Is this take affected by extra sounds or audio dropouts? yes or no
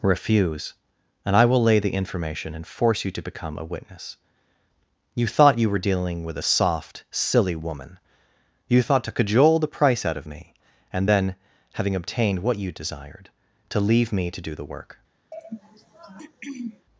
yes